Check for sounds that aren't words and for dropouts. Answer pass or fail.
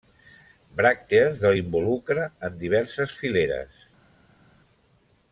pass